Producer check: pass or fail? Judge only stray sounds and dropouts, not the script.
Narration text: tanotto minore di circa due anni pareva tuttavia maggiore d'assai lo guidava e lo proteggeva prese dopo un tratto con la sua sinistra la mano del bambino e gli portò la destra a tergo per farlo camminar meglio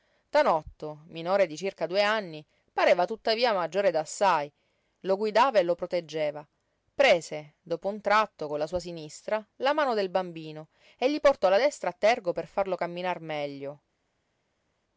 pass